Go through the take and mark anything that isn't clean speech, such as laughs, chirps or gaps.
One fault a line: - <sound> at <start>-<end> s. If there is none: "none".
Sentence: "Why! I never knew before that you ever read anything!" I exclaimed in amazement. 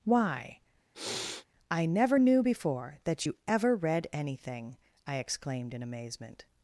- sniff at 0.9-1.5 s